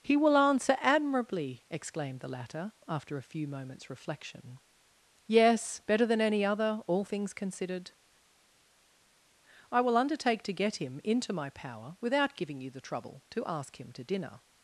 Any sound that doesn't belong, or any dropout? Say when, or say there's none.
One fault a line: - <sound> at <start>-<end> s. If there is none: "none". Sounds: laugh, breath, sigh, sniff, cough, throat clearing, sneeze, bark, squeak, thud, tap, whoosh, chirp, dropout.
none